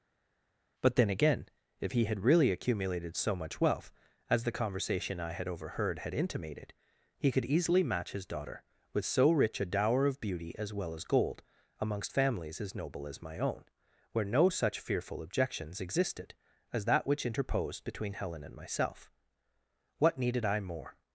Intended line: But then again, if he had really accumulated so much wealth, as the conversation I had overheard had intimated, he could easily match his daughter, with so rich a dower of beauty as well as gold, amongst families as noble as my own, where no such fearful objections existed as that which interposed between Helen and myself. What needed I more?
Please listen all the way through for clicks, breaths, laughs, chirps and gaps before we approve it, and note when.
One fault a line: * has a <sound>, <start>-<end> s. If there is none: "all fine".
all fine